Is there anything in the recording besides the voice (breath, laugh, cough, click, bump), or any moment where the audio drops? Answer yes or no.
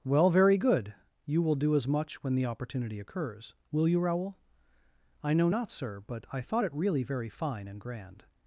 no